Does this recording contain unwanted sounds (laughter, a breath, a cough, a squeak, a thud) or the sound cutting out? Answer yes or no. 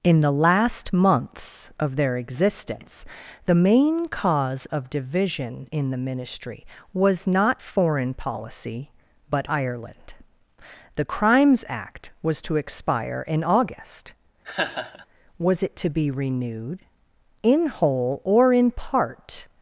yes